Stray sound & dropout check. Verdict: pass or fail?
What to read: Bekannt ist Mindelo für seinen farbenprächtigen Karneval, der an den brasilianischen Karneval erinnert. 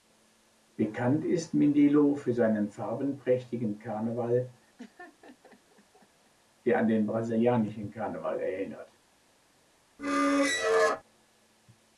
fail